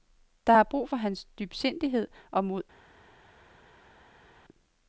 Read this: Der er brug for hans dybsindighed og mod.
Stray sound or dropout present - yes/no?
no